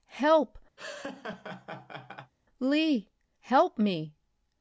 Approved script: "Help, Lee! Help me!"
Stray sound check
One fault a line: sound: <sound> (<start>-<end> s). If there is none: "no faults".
sound: laugh (0.8-2.3 s)